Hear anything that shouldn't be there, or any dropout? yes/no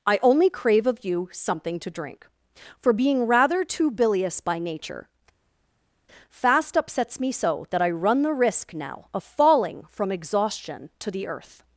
no